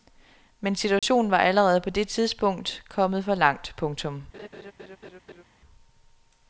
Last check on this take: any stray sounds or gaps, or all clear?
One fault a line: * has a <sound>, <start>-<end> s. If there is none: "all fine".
* has a dropout, 1.0-1.0 s
* has a laugh, 4.3-5.4 s